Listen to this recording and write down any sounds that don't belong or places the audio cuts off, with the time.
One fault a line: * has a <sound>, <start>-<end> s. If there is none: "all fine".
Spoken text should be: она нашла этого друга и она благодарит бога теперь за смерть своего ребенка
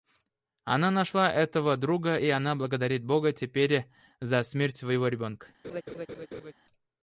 * has a laugh, 5.6-6.5 s